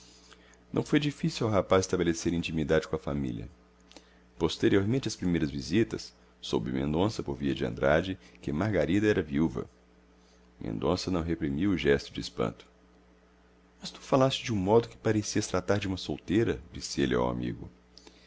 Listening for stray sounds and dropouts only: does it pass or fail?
pass